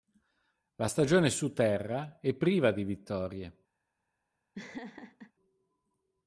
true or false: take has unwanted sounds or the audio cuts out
true